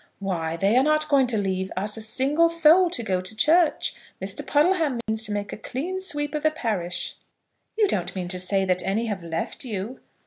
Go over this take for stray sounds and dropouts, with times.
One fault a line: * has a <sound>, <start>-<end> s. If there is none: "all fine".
* has a dropout, 5.0-5.1 s